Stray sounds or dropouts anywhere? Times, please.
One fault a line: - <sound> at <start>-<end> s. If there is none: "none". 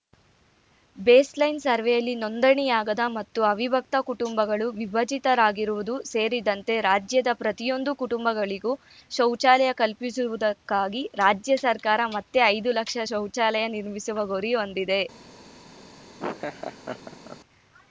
- laugh at 16.2-17.4 s